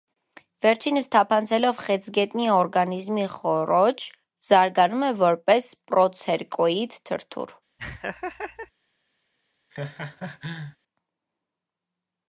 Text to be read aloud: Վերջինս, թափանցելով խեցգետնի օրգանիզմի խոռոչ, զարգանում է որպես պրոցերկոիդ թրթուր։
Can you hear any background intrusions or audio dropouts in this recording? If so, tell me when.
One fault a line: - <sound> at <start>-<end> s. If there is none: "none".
- laugh at 7.8-8.7 s
- laugh at 9.7-10.8 s